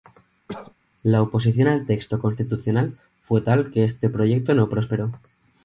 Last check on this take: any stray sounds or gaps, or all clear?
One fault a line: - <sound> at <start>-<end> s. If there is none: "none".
- cough at 0.5-0.7 s